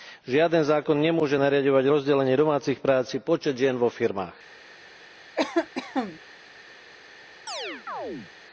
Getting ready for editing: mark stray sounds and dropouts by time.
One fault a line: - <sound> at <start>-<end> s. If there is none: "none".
- cough at 5.4-6.2 s
- chirp at 7.5-8.3 s